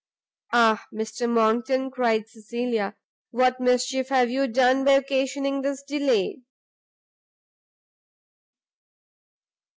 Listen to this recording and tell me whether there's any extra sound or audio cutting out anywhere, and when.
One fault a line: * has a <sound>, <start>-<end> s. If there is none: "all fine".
all fine